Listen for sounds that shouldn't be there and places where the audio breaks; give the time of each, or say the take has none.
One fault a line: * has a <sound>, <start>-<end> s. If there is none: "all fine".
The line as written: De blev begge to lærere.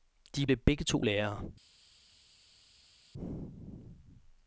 all fine